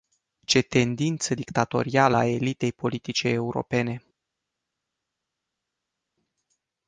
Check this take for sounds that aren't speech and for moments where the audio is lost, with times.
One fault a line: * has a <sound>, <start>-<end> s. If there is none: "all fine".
all fine